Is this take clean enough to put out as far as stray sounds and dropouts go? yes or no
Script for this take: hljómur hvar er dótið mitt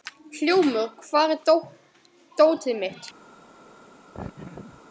no